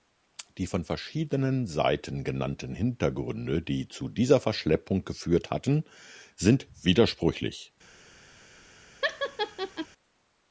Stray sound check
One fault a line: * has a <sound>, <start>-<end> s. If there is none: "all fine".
* has a laugh, 9.0-9.9 s